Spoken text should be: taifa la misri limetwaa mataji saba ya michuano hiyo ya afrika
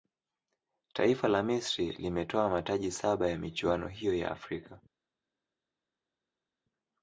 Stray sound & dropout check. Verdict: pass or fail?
pass